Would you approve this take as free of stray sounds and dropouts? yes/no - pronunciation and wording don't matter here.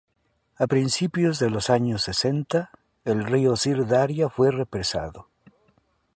yes